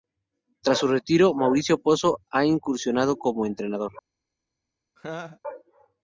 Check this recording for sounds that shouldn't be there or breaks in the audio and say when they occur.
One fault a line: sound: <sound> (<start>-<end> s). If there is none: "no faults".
sound: laugh (5.0-5.4 s)